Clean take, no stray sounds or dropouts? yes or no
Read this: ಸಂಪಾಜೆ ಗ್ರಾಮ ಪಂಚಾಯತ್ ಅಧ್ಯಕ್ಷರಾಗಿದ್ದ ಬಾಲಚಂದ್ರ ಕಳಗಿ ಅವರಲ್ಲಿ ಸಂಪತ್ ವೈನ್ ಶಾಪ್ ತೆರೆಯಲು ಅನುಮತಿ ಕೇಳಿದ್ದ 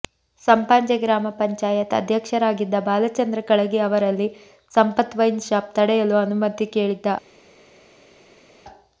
yes